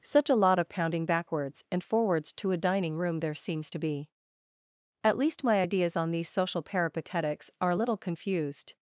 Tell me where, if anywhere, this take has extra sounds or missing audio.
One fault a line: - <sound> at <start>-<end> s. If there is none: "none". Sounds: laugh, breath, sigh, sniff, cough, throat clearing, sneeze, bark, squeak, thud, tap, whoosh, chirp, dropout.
none